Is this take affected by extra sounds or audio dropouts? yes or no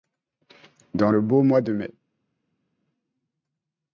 no